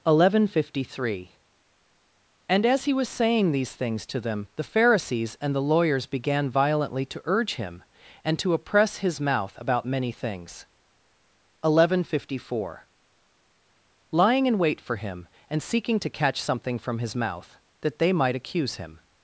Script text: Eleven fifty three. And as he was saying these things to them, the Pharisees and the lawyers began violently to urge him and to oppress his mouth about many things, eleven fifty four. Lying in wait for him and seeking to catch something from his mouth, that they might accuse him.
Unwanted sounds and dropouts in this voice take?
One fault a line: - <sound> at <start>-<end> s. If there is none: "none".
none